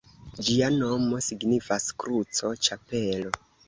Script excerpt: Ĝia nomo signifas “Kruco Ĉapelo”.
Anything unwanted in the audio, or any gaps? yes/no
no